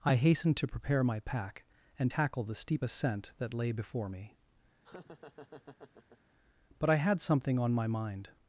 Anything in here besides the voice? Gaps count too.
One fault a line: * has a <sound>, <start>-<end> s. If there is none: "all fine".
* has a laugh, 4.8-6.2 s